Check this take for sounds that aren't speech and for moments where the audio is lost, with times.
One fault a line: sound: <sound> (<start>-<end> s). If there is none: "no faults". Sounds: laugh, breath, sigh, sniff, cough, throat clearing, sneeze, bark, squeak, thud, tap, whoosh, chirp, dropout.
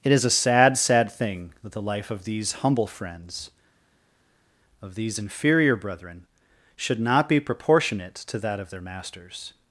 no faults